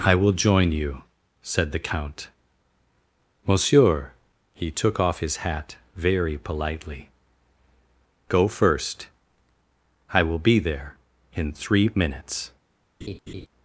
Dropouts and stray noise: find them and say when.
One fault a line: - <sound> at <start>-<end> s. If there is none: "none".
- laugh at 13.0-13.5 s